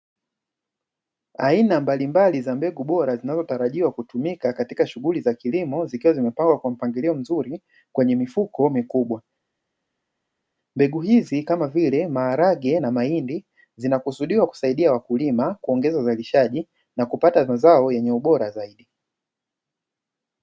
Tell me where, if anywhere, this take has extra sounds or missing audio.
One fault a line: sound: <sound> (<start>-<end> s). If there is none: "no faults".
no faults